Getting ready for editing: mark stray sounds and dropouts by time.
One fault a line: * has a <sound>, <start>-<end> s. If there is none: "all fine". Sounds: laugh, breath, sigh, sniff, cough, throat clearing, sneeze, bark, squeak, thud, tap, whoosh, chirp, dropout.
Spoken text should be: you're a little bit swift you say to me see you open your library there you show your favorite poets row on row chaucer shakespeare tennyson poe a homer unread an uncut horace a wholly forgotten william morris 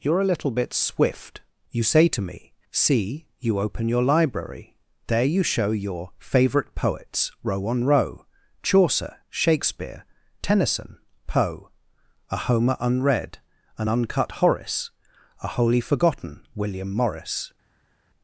all fine